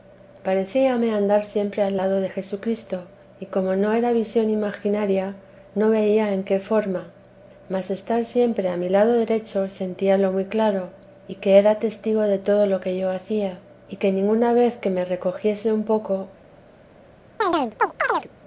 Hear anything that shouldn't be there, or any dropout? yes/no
yes